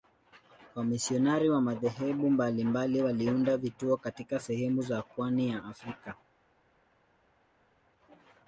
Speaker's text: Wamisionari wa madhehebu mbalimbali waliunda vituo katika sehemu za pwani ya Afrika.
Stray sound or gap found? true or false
false